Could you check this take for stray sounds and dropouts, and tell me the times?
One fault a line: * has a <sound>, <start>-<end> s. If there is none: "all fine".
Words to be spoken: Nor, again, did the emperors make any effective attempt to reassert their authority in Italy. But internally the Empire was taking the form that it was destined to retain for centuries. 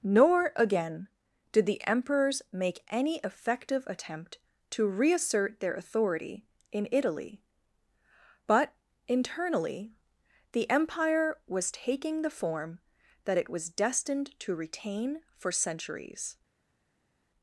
all fine